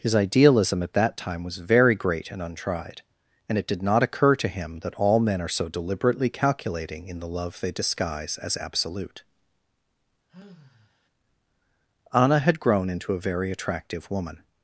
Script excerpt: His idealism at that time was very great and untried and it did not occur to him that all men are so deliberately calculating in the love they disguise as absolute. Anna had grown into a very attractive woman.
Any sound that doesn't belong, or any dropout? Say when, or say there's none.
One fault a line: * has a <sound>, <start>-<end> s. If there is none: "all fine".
* has a sigh, 10.3-11.1 s